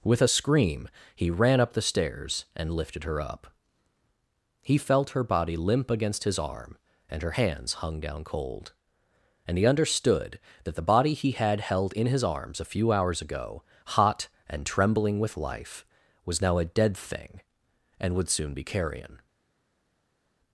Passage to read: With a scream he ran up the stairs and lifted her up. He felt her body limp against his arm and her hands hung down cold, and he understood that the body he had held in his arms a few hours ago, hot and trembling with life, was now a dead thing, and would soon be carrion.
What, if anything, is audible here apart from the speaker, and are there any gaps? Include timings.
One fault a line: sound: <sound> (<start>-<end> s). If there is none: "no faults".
no faults